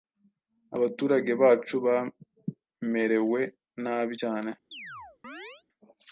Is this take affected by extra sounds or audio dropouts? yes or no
yes